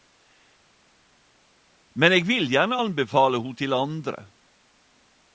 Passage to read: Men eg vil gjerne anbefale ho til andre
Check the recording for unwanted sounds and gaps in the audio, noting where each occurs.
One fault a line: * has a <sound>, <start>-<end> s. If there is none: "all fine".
all fine